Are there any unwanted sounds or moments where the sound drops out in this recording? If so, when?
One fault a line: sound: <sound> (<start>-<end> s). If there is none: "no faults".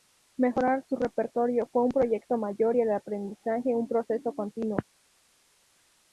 no faults